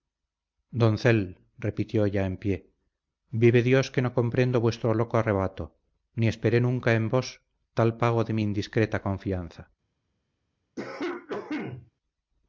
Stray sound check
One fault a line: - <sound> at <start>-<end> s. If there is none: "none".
- cough at 10.8-11.9 s